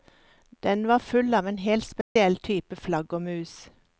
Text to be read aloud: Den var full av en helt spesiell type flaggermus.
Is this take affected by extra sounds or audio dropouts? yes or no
yes